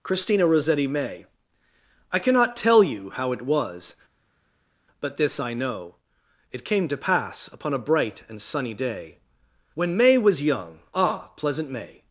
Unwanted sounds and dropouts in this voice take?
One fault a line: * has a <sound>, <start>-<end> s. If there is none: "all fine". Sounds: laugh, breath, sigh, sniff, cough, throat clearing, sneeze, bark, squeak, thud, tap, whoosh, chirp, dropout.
all fine